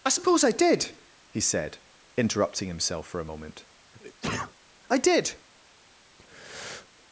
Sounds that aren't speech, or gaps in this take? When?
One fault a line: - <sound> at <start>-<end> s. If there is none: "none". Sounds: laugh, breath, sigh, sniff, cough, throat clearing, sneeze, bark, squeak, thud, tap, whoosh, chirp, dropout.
- sneeze at 3.9-4.5 s
- breath at 6.2-6.9 s